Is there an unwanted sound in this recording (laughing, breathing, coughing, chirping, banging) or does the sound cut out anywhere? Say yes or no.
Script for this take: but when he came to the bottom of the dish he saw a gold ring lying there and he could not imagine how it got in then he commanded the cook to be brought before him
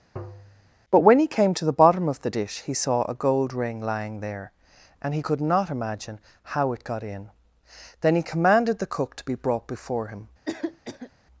yes